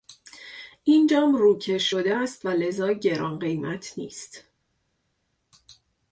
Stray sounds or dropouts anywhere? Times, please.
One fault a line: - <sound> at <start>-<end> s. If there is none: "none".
none